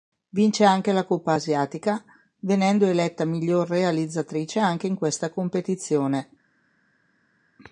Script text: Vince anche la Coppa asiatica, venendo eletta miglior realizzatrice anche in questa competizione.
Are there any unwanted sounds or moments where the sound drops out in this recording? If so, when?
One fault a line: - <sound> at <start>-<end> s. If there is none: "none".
none